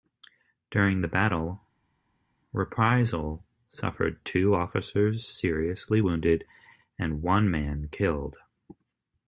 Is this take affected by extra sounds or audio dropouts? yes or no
no